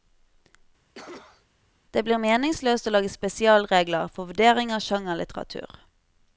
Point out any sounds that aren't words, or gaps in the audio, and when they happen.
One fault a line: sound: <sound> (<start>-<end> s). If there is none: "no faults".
sound: cough (1.0-1.5 s)